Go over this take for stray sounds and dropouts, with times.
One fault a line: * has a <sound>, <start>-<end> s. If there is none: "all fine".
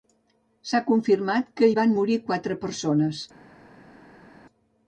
all fine